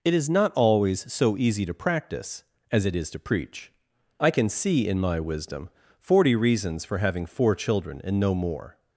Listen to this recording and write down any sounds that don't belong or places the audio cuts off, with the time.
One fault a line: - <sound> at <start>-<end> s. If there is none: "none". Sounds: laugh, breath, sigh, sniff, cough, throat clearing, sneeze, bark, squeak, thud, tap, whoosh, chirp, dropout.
none